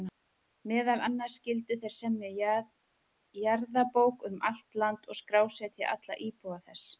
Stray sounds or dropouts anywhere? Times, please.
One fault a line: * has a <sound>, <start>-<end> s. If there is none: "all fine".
all fine